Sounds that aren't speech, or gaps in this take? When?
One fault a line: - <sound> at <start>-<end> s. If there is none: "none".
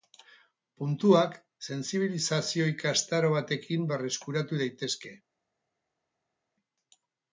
none